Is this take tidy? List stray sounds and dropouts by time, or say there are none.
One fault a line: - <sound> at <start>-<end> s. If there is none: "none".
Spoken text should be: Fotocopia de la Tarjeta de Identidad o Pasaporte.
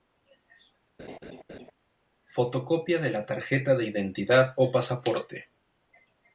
- laugh at 1.0-1.7 s